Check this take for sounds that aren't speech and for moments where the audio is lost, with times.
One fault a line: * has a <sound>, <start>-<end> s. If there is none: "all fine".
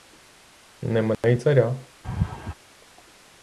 * has a dropout, 1.1-1.2 s
* has a laugh, 2.0-2.5 s